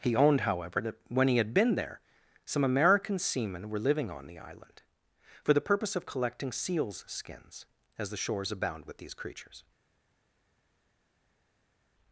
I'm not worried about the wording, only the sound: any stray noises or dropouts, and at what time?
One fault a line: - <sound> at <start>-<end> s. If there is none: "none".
none